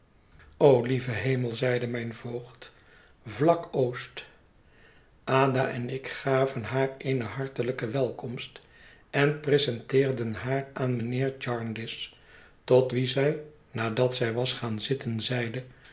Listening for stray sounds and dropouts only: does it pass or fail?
pass